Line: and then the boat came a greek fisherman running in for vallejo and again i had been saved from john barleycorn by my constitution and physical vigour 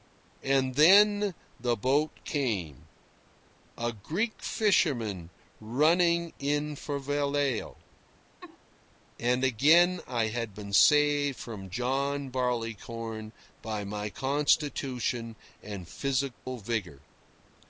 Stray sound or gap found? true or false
true